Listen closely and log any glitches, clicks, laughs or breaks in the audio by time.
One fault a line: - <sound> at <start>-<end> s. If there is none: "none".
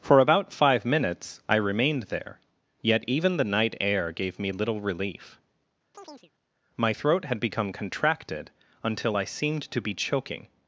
- chirp at 5.9-6.3 s